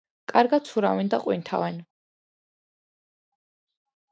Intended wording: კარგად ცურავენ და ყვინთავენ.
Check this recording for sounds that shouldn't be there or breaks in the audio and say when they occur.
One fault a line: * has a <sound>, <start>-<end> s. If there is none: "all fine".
all fine